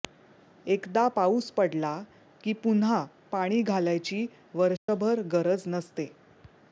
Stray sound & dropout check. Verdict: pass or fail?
fail